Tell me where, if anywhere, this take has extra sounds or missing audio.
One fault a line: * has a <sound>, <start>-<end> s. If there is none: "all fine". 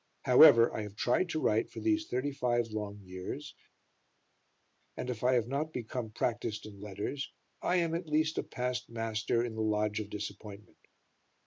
all fine